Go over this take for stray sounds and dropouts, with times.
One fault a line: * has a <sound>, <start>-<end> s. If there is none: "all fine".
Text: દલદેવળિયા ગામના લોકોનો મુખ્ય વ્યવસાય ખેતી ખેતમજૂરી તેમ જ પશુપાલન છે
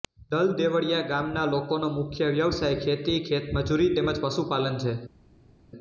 all fine